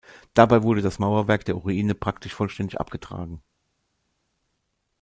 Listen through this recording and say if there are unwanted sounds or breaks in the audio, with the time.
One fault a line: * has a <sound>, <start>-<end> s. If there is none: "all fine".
all fine